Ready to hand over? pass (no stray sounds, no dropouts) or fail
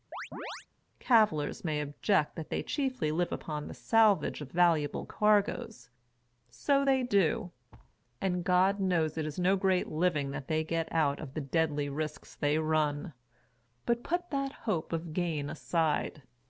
fail